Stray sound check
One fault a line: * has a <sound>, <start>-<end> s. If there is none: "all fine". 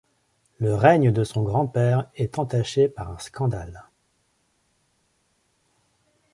all fine